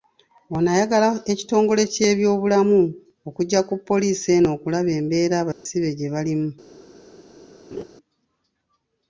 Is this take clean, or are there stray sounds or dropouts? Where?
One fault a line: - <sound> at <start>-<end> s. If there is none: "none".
- dropout at 5.5-5.7 s
- laugh at 7.7-7.8 s